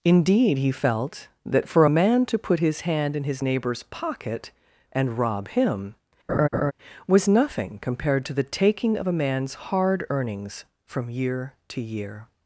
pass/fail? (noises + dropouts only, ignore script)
fail